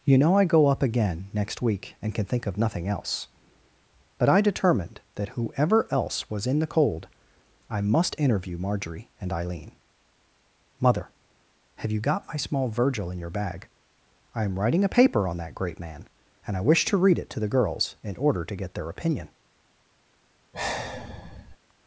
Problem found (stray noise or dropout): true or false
true